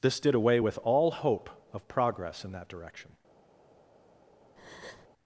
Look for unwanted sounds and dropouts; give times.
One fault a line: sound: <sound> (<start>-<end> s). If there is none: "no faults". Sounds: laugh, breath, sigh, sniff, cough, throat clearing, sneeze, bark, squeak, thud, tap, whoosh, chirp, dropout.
sound: breath (4.6-5.1 s)